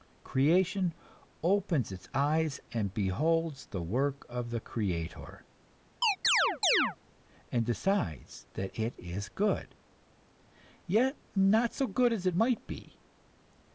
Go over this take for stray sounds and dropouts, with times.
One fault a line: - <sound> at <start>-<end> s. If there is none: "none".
- chirp at 6.0-7.0 s